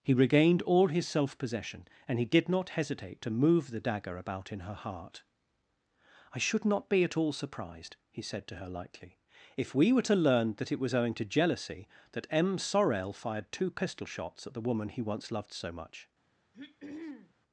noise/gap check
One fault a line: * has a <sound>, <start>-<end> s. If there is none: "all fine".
* has a throat clearing, 16.5-17.3 s